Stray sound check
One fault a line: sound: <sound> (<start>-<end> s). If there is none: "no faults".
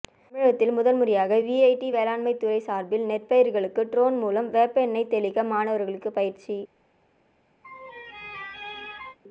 sound: laugh (7.6-9.2 s)